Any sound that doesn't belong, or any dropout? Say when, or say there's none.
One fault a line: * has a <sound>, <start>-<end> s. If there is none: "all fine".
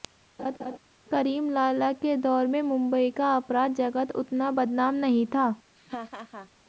* has a laugh, 0.4-0.8 s
* has a laugh, 5.8-6.5 s